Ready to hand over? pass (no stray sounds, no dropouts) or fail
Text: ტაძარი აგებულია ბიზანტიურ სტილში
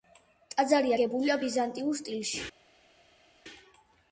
pass